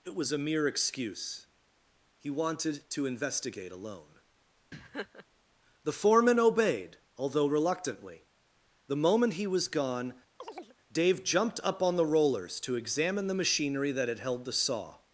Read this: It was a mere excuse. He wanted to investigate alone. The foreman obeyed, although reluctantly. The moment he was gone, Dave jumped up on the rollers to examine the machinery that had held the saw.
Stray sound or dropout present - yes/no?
yes